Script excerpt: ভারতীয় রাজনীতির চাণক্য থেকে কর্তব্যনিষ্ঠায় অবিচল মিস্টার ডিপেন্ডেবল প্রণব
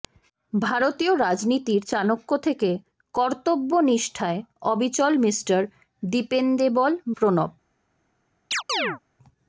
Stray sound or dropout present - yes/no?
yes